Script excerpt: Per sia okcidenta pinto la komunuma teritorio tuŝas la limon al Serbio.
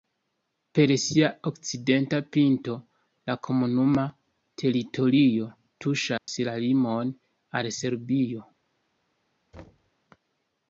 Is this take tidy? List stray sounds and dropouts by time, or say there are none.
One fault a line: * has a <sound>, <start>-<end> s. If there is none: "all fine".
* has a dropout, 6.2-6.3 s
* has a thud, 9.5-9.9 s